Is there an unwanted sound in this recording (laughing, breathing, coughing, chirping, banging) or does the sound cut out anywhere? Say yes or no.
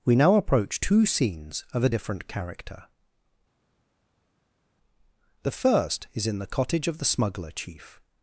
no